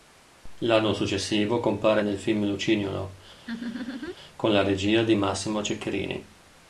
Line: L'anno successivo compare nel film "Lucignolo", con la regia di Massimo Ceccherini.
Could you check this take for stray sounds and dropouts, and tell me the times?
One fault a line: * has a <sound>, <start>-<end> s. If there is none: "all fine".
* has a laugh, 3.5-4.2 s